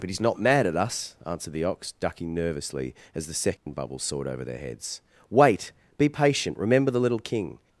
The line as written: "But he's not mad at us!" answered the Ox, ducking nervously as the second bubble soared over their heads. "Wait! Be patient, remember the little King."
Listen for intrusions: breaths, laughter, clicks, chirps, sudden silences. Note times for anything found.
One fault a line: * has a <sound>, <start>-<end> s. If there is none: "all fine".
* has a dropout, 3.6-3.7 s